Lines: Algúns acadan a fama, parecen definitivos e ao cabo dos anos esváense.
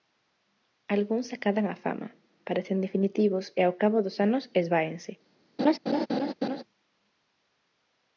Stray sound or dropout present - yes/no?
yes